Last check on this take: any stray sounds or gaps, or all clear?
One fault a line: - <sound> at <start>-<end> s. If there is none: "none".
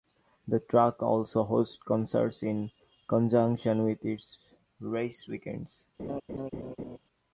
- laugh at 6.0-7.0 s